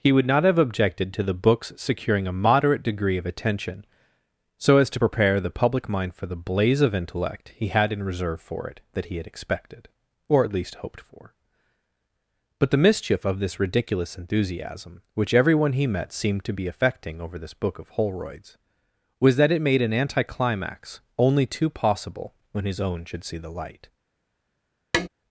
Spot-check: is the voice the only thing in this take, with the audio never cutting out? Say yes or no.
no